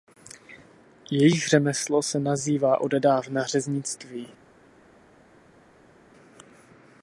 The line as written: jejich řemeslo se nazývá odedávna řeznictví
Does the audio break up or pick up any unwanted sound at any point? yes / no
no